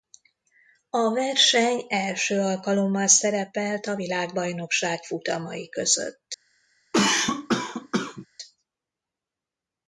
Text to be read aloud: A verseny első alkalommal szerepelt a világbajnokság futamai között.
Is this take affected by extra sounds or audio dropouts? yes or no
yes